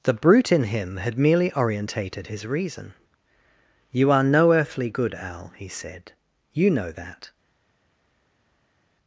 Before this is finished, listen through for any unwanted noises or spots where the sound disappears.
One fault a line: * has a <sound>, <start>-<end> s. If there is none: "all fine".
all fine